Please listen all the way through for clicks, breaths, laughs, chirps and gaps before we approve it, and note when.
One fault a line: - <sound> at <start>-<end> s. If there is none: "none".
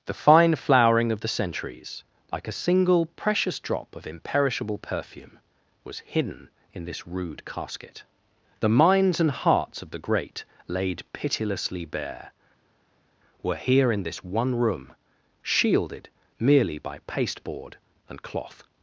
none